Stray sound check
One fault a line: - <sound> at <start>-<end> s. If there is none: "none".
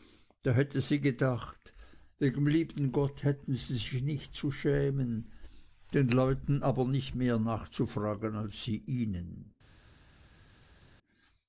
none